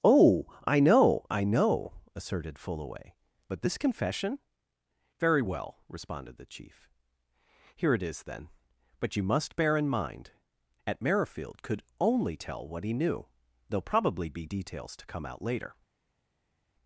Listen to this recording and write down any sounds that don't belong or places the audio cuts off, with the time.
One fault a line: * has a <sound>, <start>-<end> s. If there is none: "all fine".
all fine